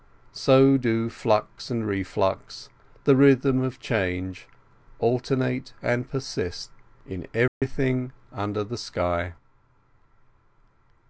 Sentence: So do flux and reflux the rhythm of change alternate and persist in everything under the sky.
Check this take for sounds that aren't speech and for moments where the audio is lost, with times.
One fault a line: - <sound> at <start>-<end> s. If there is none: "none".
- dropout at 7.5-7.6 s